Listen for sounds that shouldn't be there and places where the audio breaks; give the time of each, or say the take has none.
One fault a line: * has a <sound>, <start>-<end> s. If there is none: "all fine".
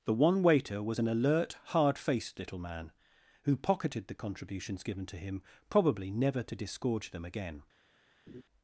* has a laugh, 8.3-8.4 s